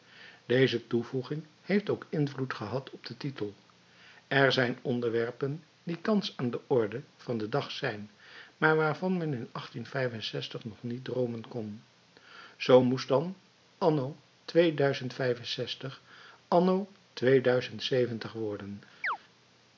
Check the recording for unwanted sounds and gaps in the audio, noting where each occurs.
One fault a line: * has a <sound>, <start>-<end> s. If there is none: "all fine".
* has a chirp, 19.0-19.2 s